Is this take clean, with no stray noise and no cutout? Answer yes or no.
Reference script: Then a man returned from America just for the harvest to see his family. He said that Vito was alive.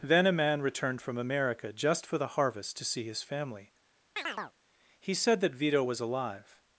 no